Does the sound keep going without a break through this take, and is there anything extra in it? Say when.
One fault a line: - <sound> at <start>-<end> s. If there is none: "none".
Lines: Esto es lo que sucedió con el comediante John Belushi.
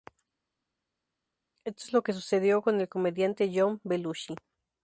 none